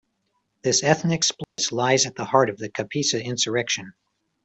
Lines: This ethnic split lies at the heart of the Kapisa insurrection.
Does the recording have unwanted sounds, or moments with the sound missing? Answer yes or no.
yes